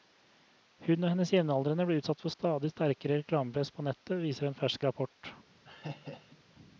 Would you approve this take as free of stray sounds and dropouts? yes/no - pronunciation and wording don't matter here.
no